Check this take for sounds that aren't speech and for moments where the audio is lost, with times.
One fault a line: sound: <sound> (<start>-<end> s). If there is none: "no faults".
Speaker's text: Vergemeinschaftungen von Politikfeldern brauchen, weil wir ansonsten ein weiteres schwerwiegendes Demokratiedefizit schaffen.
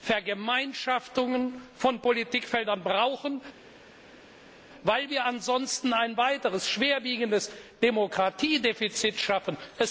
no faults